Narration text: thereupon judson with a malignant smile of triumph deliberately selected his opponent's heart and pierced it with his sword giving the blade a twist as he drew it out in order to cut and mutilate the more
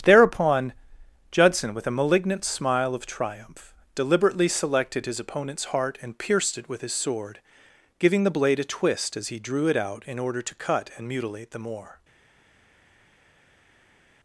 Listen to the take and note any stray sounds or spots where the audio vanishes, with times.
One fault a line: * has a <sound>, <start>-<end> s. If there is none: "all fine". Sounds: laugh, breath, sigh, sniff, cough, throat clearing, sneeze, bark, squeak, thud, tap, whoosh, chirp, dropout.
all fine